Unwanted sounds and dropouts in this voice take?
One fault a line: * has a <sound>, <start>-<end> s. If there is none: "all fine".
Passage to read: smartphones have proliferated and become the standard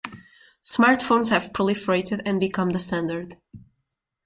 all fine